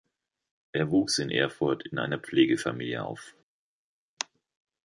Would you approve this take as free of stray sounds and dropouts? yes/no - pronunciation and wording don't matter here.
yes